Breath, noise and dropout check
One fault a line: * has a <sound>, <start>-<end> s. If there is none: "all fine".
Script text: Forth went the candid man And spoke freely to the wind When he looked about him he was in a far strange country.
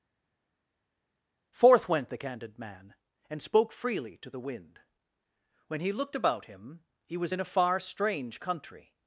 all fine